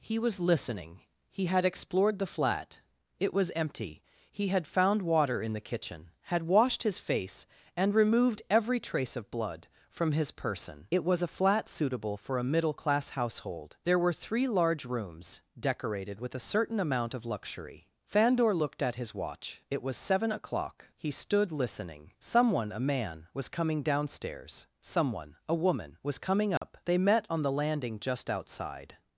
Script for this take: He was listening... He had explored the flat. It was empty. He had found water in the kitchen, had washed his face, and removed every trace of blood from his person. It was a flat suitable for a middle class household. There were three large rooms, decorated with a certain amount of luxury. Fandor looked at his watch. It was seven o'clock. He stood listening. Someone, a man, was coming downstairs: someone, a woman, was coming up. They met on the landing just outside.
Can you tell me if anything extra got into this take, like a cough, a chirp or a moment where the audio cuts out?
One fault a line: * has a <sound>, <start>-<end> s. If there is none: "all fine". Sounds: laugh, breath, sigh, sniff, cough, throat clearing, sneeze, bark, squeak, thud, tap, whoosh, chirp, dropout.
* has a dropout, 26.6-26.6 s